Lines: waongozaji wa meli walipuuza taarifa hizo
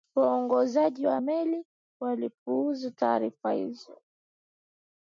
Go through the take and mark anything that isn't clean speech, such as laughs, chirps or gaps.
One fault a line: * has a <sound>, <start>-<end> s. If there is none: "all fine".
all fine